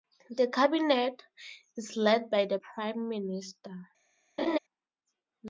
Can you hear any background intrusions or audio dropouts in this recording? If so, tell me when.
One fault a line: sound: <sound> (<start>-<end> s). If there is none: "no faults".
sound: laugh (4.4-4.6 s)